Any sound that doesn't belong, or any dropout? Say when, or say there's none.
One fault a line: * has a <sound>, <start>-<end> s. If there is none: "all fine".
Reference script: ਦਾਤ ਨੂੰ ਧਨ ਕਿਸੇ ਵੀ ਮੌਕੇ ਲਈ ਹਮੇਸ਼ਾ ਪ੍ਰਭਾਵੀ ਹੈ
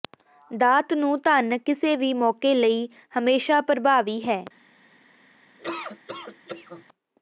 * has a laugh, 5.6-6.8 s